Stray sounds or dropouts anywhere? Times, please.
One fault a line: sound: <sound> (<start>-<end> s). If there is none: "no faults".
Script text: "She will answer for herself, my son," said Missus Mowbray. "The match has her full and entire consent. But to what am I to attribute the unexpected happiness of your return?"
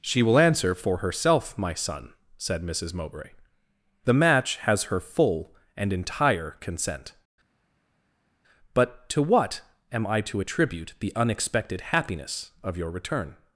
no faults